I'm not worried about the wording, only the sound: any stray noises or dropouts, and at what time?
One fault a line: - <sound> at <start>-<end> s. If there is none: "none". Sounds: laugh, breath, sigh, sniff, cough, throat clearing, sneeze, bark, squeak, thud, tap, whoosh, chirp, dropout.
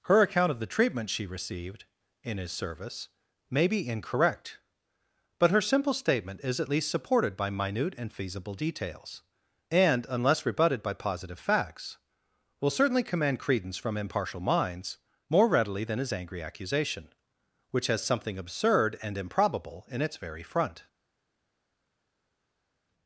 none